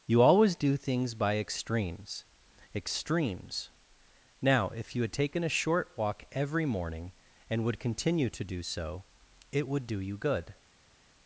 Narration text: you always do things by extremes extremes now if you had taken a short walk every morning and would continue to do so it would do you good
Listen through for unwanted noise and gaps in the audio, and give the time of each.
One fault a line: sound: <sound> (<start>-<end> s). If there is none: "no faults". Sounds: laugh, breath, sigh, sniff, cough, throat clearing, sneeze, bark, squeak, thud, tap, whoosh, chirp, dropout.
no faults